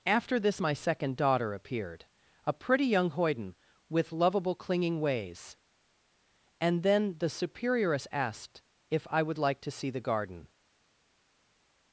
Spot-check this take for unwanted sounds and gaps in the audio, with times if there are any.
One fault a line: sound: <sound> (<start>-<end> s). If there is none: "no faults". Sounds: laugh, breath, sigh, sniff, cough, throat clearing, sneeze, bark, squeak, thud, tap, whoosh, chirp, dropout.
no faults